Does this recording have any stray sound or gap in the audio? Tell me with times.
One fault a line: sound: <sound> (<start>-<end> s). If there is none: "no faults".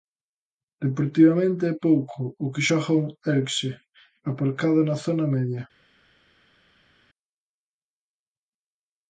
no faults